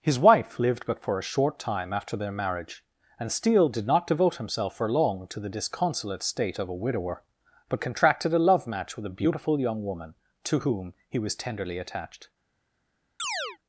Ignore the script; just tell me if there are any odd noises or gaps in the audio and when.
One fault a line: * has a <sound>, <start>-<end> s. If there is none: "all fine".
* has a chirp, 13.2-13.6 s